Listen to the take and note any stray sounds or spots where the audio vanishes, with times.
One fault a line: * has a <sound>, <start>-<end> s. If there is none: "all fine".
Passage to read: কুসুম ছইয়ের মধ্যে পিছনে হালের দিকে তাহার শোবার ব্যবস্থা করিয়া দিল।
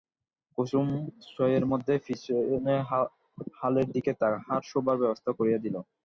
all fine